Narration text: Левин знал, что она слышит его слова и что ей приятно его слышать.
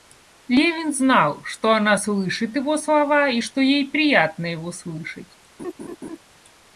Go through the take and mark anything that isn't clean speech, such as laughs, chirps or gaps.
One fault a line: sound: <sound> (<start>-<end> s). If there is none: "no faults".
sound: laugh (5.6-6.2 s)